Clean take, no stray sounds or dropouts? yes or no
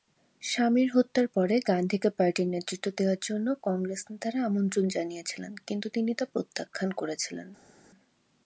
yes